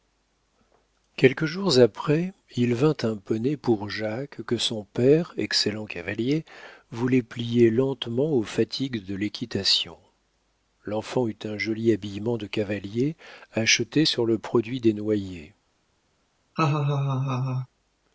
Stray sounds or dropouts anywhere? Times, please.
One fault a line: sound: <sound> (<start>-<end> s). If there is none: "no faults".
sound: laugh (16.6-17.7 s)